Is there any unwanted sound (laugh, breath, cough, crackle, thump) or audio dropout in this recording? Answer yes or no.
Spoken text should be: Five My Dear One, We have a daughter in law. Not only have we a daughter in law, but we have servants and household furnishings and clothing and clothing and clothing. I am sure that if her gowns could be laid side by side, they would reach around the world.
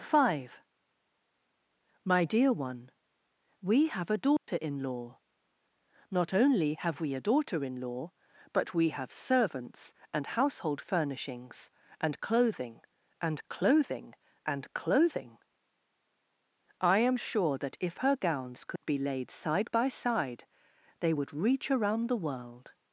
yes